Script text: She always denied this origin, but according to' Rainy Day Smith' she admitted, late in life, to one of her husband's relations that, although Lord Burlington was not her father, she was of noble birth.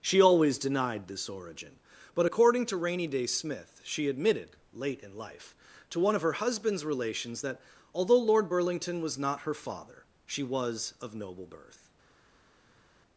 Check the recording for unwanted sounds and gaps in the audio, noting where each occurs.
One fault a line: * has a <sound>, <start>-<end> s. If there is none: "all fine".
all fine